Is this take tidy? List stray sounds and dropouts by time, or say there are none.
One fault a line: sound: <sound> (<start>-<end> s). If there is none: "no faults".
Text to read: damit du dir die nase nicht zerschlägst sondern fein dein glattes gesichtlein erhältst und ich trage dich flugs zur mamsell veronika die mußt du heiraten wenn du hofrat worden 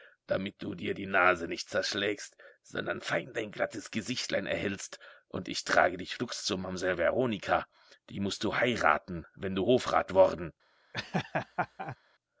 sound: laugh (10.9-12.0 s)